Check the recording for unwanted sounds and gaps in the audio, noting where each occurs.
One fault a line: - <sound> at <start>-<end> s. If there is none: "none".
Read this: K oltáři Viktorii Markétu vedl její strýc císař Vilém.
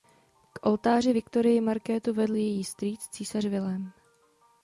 none